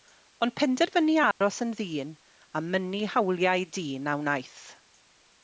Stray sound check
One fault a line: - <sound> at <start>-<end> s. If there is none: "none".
- dropout at 1.3-1.4 s